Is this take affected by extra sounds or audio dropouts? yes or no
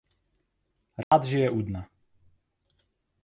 yes